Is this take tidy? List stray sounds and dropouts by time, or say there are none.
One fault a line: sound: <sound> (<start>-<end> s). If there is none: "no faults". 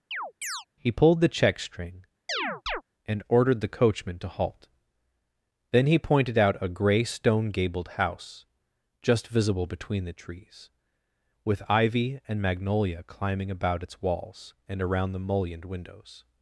sound: chirp (0.1-0.7 s)
sound: chirp (2.3-2.8 s)